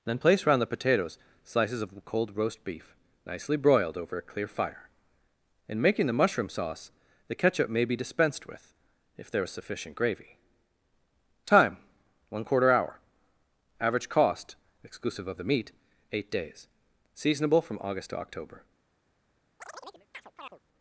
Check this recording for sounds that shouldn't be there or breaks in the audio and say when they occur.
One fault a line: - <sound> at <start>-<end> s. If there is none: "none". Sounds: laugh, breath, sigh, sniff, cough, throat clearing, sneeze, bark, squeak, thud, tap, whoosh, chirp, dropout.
- chirp at 19.6-20.6 s